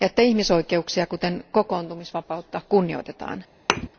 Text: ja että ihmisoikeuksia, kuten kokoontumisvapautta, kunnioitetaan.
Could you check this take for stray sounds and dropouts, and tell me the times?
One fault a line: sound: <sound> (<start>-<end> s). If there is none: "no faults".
sound: thud (3.7-3.9 s)